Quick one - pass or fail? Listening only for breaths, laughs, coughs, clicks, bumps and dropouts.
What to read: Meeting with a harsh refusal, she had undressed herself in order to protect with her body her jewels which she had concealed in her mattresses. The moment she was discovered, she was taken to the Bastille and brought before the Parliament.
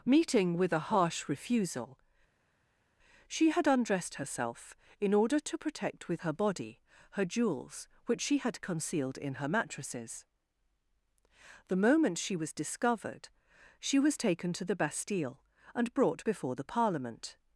pass